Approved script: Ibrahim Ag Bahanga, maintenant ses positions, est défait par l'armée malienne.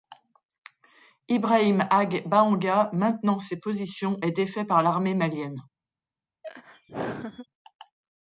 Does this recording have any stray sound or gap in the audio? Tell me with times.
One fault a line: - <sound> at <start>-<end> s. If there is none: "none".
- laugh at 6.4-7.5 s